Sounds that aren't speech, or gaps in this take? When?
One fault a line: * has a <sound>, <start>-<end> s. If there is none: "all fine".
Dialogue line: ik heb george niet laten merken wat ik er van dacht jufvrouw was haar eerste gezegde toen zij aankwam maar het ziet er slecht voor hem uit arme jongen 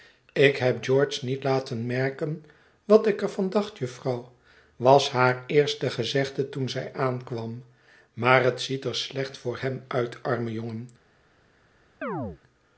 * has a chirp, 12.0-12.4 s